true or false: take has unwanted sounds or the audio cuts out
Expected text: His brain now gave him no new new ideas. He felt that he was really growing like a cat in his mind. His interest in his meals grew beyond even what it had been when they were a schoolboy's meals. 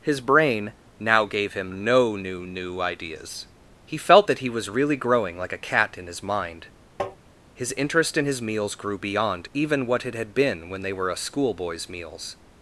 true